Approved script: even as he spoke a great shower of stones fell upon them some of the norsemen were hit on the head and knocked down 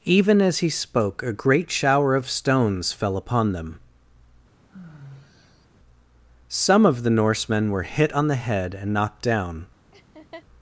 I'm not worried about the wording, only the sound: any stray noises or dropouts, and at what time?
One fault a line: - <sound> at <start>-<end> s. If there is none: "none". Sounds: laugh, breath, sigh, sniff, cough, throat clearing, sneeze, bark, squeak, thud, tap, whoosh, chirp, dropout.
- sigh at 4.5-5.7 s
- laugh at 9.9-10.4 s